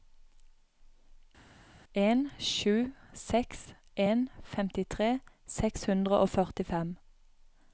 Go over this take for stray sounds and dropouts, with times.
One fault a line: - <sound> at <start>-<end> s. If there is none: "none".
none